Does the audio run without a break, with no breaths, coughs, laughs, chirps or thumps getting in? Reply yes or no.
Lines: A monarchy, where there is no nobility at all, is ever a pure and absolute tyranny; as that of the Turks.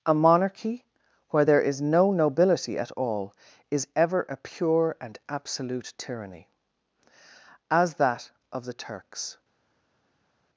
yes